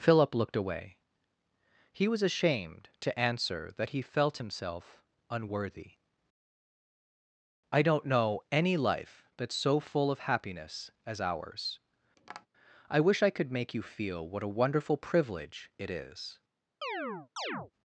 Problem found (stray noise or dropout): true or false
true